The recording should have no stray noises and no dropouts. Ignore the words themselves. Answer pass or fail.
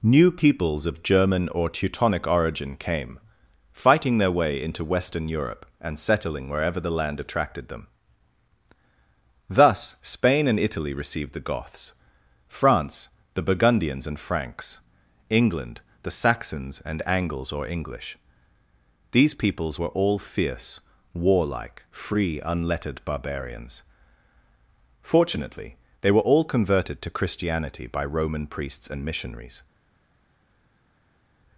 pass